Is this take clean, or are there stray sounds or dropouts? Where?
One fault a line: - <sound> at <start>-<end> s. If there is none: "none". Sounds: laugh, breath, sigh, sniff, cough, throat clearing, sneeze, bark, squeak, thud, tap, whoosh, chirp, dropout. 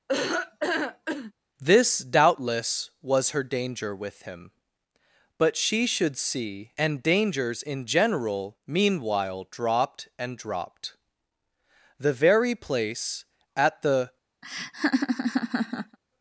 - laugh at 0.1-1.3 s
- laugh at 14.4-16.0 s